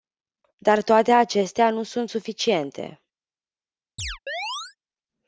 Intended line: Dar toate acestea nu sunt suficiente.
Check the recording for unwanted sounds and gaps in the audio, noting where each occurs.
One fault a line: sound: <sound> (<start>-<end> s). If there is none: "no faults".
sound: chirp (4.0-4.8 s)